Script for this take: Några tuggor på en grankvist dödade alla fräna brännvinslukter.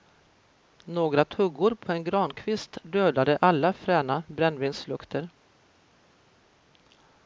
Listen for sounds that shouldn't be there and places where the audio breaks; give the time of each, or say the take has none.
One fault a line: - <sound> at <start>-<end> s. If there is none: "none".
none